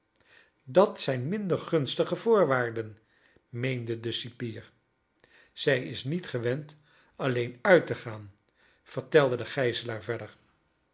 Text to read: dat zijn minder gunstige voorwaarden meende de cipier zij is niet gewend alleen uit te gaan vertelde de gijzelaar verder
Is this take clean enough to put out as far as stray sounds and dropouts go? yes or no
yes